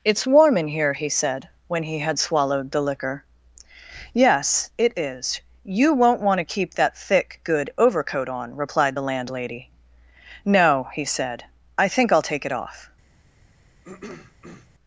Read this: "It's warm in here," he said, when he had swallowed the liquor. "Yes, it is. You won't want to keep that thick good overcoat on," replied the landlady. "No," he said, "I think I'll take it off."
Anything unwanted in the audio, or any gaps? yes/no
yes